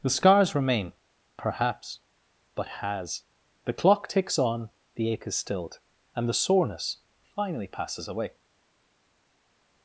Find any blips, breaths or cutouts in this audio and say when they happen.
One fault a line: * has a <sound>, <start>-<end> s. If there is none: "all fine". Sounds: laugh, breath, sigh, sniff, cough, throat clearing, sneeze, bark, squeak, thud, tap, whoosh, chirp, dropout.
all fine